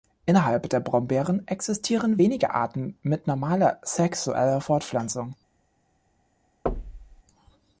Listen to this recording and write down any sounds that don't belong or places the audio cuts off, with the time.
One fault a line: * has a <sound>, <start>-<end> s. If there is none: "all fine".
* has a thud, 6.7-7.2 s